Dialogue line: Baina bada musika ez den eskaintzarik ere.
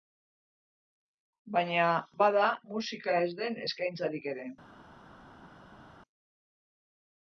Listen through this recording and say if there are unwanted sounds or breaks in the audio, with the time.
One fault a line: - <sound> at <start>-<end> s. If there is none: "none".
none